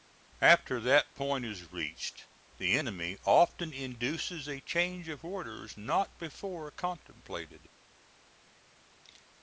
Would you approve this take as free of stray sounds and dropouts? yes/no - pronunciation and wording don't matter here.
yes